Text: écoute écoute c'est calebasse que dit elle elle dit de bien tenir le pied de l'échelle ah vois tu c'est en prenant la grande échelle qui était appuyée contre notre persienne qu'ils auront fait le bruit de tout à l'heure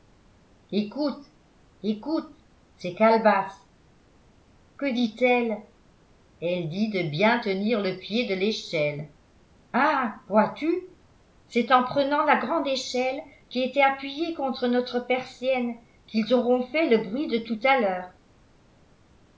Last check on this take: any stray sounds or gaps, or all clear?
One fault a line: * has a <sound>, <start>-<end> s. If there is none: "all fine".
all fine